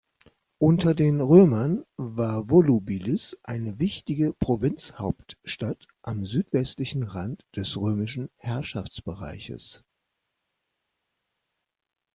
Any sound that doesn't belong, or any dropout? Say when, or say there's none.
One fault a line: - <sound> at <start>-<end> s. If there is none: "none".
none